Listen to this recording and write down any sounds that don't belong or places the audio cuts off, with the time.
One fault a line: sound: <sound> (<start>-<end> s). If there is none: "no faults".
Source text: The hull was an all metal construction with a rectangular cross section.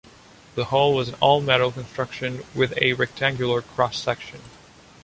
no faults